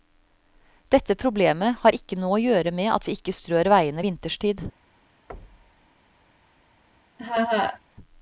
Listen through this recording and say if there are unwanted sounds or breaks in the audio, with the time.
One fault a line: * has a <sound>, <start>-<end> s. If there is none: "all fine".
* has a thud, 5.3-5.9 s
* has a laugh, 7.2-7.8 s